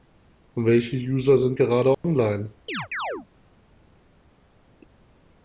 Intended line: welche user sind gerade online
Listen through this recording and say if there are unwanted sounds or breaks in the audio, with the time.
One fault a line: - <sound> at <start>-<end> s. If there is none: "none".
- dropout at 1.9-2.0 s
- chirp at 2.7-3.3 s